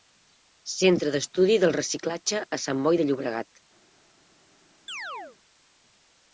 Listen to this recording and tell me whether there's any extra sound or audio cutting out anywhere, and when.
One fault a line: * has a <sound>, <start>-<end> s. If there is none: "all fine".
* has a chirp, 4.9-5.4 s